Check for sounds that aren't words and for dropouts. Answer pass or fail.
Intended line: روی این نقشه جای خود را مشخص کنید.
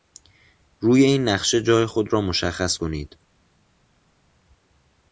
pass